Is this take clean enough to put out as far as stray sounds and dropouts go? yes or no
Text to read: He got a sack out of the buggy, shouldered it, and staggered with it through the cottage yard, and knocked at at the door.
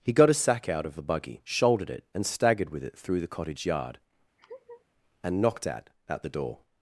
no